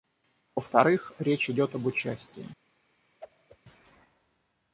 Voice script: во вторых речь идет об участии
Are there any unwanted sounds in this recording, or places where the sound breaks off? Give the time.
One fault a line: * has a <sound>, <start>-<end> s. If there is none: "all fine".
* has a whoosh, 3.2-3.6 s